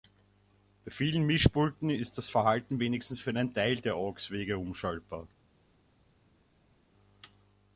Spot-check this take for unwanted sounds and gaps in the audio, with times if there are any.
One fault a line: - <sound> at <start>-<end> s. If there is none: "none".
none